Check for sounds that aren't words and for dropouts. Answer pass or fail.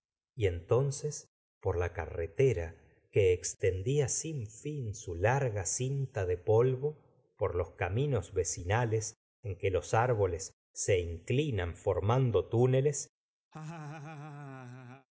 fail